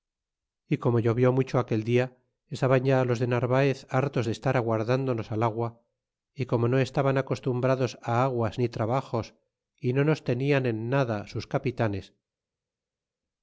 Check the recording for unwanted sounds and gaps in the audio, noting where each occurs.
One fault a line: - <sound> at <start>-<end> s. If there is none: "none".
none